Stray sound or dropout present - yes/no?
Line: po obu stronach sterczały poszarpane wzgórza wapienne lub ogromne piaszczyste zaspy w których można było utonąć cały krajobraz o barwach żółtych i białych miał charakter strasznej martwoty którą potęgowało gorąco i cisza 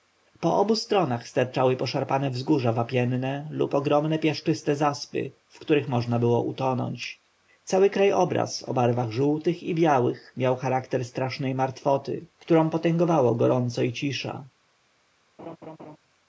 yes